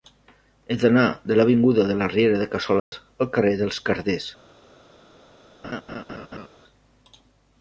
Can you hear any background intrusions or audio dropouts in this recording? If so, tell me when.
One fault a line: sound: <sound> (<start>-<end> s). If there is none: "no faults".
sound: dropout (2.8-2.9 s)
sound: laugh (5.6-6.5 s)